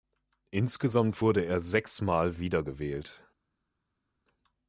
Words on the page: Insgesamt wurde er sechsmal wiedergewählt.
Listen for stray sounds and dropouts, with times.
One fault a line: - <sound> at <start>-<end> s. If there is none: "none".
none